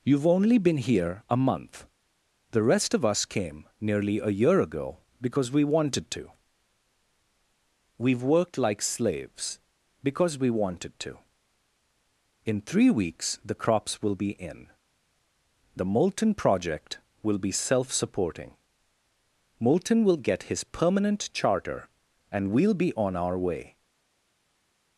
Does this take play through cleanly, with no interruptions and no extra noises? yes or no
yes